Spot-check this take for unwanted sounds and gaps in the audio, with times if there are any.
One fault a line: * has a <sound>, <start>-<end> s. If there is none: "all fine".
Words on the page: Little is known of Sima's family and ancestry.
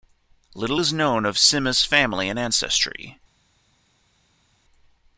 all fine